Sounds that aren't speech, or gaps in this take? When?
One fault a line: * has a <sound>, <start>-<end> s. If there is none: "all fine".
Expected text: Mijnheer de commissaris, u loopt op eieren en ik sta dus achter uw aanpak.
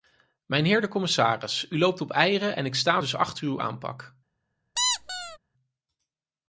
* has a squeak, 4.8-5.4 s